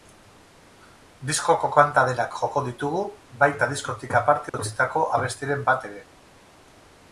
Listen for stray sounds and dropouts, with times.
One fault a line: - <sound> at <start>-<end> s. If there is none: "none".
- dropout at 4.5-4.5 s